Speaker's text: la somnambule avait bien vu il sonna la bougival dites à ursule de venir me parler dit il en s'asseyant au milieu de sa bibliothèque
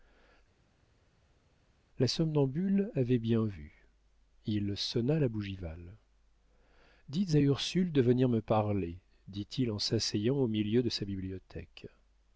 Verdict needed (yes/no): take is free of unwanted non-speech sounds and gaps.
yes